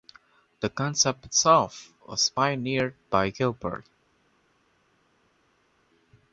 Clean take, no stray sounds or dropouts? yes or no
yes